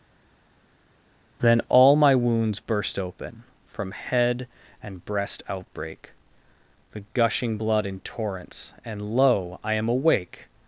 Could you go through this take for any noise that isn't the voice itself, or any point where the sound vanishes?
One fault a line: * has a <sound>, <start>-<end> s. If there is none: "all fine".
all fine